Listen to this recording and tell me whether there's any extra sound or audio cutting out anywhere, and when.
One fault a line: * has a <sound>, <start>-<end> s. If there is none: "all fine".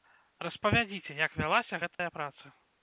* has a dropout, 1.9-2.0 s